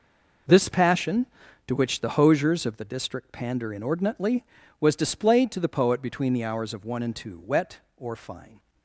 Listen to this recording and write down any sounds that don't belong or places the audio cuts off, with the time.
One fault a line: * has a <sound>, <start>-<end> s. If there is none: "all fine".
all fine